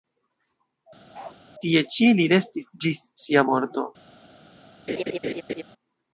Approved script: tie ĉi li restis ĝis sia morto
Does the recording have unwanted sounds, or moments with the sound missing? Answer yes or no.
yes